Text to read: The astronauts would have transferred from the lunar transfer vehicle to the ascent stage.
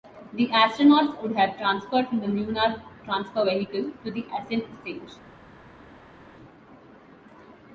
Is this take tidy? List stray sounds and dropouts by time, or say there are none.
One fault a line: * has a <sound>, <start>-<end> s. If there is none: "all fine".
all fine